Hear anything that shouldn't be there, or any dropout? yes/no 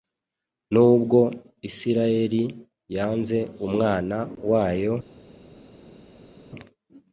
no